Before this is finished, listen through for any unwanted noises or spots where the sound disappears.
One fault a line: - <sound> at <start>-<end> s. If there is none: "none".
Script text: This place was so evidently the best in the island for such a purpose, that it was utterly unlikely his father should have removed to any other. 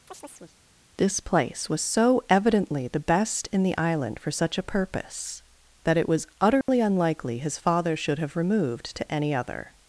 - chirp at 0.1-0.6 s
- dropout at 6.6-6.7 s